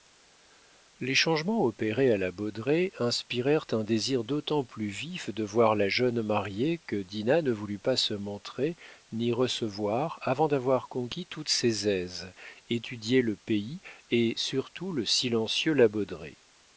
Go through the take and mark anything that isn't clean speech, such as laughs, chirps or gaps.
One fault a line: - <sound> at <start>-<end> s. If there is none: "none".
none